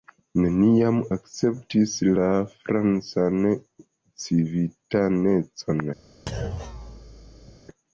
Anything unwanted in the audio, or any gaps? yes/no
yes